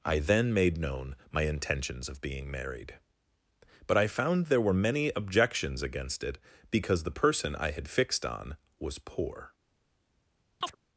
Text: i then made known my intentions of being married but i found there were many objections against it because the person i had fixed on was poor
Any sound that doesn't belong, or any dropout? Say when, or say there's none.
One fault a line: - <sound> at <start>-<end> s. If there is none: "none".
- chirp at 10.6-10.8 s